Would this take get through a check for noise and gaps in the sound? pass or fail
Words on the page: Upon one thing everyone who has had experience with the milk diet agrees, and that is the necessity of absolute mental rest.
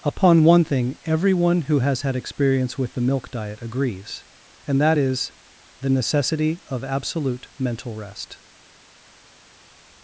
pass